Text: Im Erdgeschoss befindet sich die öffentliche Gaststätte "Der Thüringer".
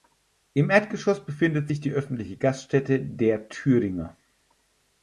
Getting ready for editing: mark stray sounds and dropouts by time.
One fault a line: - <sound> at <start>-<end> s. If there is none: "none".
none